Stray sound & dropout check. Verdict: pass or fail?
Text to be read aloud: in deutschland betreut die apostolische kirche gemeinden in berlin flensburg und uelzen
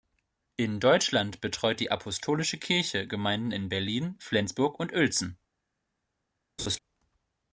fail